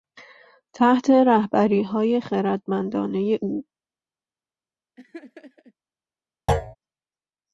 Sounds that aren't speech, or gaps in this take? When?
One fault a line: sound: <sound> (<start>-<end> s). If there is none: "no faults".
sound: laugh (5.0-5.7 s)
sound: thud (6.5-6.8 s)